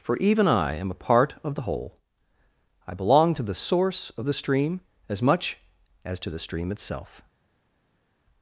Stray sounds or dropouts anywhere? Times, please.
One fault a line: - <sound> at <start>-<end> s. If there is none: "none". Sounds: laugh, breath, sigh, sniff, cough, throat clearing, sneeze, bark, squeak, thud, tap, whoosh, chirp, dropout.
none